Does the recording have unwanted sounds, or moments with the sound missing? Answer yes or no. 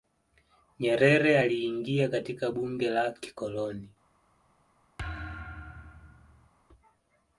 yes